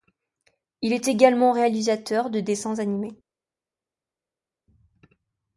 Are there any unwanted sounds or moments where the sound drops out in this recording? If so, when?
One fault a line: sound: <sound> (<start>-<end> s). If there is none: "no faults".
no faults